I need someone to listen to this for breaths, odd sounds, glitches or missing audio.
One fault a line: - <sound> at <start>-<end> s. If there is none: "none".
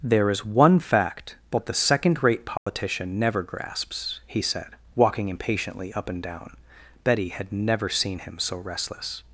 - dropout at 2.6-2.7 s